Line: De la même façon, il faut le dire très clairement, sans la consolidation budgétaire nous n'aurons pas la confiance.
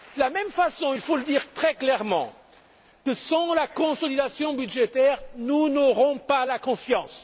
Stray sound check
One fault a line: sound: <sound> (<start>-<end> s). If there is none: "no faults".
no faults